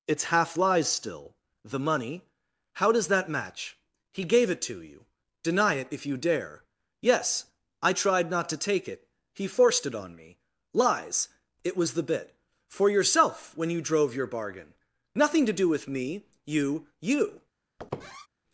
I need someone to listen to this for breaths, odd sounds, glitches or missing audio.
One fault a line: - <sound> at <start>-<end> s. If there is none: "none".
- squeak at 17.8-18.3 s